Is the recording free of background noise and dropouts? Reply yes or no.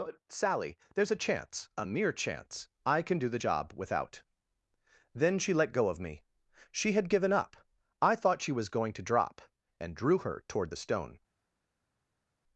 yes